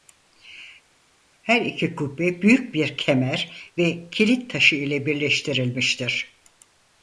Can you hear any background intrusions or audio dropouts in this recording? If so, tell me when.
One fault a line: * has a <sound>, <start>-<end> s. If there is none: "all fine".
all fine